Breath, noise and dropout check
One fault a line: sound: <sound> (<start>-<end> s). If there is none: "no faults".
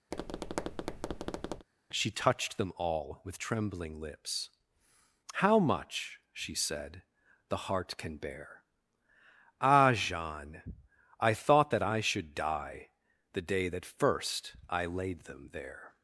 sound: tap (0.1-1.7 s)